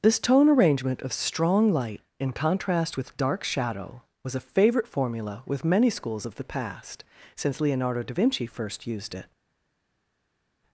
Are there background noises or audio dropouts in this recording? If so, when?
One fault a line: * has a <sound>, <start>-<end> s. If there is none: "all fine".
all fine